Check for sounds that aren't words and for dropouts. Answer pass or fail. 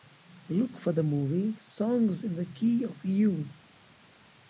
pass